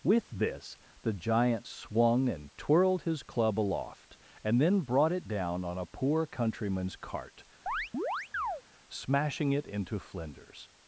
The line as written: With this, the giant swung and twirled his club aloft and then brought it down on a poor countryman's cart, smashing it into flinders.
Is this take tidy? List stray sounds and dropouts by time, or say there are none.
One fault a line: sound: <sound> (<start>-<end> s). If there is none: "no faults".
sound: chirp (7.7-8.6 s)